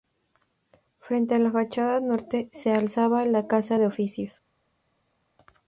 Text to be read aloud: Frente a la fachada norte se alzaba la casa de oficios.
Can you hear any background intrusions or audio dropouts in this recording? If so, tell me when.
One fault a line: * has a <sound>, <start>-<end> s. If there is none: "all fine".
all fine